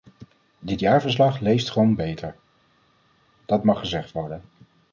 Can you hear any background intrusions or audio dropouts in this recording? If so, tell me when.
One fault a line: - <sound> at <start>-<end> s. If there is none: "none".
none